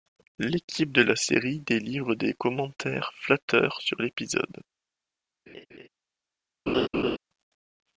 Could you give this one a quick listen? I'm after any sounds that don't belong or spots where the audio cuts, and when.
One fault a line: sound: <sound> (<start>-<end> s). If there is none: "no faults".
sound: laugh (5.5-5.9 s)
sound: laugh (6.7-7.2 s)